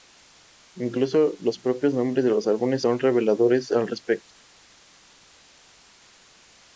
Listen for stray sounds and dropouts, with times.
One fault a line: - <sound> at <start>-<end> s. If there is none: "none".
none